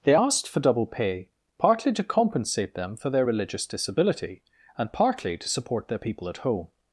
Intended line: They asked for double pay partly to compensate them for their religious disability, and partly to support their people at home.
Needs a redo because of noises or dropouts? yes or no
no